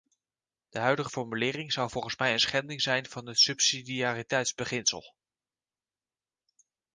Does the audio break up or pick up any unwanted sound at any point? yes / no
no